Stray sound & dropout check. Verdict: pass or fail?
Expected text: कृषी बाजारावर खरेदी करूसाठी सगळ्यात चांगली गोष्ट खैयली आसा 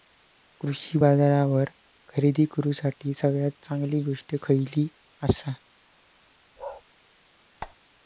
fail